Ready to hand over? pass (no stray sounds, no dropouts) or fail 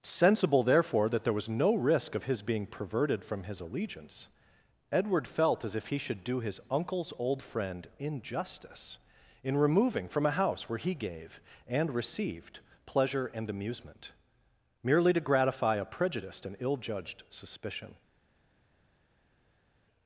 pass